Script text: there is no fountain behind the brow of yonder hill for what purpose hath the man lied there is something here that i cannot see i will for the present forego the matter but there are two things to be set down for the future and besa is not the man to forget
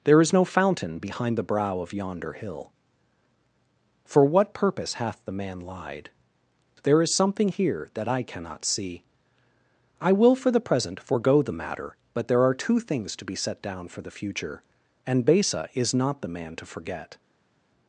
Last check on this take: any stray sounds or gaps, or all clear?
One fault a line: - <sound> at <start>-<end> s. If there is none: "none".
none